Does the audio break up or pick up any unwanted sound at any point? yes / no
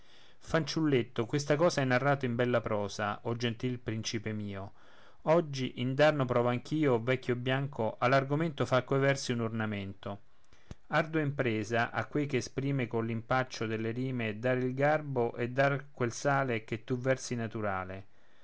no